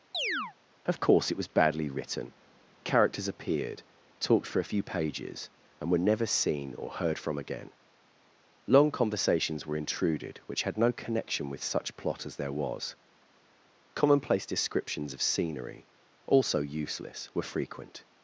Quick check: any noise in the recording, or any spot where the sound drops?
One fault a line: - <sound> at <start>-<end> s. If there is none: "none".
- chirp at 0.1-0.5 s